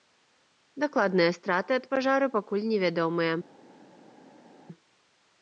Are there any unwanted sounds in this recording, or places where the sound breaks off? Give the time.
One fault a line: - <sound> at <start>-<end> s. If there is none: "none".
none